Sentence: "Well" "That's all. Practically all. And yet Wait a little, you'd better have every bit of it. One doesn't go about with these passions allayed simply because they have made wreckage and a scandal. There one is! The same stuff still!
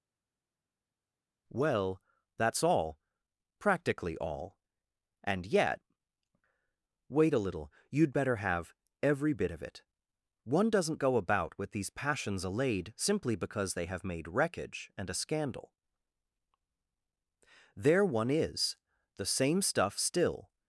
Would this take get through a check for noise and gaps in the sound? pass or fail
pass